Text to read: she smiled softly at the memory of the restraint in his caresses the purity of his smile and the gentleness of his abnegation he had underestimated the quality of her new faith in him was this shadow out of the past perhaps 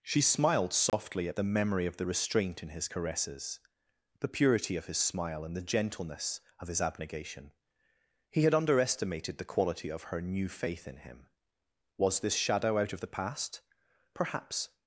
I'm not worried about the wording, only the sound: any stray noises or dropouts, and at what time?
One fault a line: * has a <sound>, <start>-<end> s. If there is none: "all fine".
* has a dropout, 0.9-0.9 s